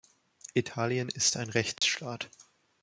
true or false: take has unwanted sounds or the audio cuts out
true